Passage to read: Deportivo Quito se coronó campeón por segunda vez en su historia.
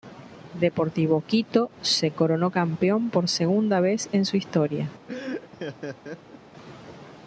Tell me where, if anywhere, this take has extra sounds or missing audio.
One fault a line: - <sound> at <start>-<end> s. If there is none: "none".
- laugh at 5.1-6.4 s